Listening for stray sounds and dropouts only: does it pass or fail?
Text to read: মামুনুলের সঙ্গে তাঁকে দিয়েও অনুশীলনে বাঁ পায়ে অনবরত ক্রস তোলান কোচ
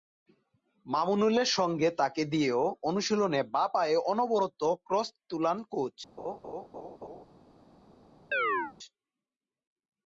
fail